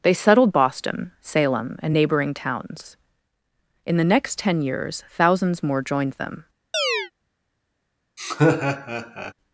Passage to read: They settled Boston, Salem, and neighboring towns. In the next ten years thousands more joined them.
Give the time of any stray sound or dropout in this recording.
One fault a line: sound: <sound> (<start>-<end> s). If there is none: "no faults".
sound: chirp (6.7-7.1 s)
sound: laugh (8.2-9.3 s)